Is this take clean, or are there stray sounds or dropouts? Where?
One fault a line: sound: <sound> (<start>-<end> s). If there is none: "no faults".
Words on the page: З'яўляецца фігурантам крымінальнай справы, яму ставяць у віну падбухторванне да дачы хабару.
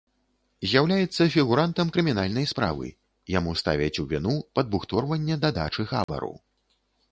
sound: dropout (6.0-6.1 s)